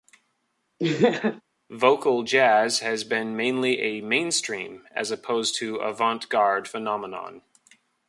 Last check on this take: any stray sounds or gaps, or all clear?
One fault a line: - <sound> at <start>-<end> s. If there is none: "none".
- laugh at 0.8-1.4 s